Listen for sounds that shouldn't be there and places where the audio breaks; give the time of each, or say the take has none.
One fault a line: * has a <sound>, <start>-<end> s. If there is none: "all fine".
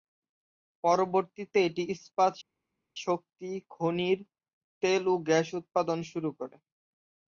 all fine